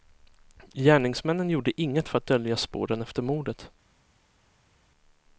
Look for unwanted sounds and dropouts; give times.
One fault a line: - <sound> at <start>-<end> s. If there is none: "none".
none